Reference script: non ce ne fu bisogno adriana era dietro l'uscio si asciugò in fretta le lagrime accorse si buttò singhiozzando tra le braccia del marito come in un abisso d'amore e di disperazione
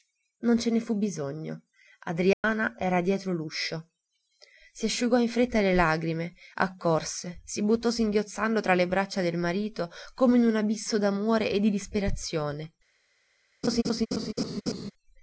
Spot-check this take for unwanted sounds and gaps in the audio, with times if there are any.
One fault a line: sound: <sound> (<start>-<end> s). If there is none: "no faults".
sound: dropout (2.3-2.4 s)
sound: laugh (13.6-14.9 s)